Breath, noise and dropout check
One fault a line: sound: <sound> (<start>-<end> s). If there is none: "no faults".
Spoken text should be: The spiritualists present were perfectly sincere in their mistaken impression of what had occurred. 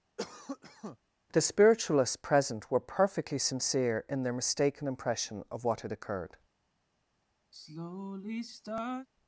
sound: cough (0.2-1.0 s)
sound: sigh (7.5-9.1 s)